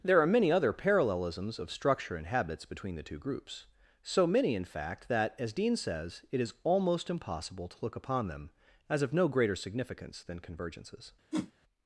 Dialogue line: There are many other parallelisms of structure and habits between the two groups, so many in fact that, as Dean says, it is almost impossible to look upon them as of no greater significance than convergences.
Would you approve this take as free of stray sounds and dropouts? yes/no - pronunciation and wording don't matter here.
no